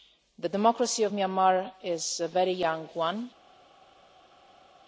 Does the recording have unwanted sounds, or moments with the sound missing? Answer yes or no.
no